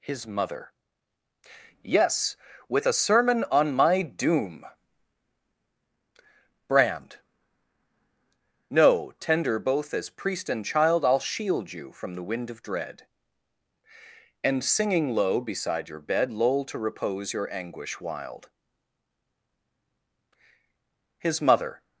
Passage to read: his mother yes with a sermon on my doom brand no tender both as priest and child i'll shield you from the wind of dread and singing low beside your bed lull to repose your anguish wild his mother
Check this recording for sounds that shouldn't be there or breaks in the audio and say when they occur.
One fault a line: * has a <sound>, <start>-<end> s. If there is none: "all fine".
all fine